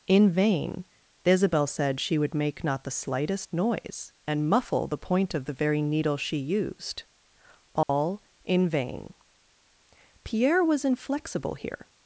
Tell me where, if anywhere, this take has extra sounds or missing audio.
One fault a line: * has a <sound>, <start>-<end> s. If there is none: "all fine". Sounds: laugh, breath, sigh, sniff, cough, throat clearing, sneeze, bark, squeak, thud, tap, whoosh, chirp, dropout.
* has a dropout, 7.8-7.9 s